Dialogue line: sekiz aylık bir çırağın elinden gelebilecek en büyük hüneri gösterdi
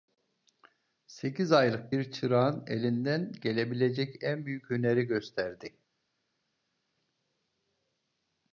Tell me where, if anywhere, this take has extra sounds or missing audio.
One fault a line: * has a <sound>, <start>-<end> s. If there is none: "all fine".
all fine